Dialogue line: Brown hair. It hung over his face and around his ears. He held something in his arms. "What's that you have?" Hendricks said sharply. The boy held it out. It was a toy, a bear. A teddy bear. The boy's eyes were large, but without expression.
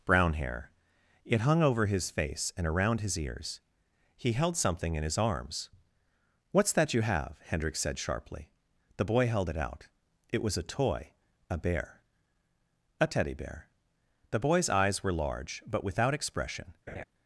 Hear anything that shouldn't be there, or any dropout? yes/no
yes